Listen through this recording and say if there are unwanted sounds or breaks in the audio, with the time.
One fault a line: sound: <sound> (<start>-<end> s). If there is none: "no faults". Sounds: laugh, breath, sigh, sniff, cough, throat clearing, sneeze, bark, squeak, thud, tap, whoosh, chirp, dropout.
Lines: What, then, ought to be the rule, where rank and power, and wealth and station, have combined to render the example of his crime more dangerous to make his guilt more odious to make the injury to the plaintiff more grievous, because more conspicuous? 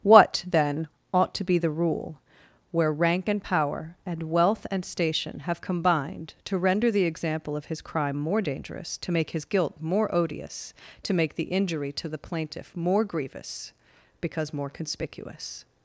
no faults